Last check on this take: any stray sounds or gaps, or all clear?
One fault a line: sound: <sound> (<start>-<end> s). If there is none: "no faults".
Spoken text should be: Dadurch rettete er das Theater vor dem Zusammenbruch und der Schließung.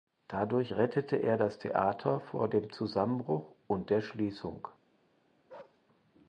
sound: bark (5.5-5.8 s)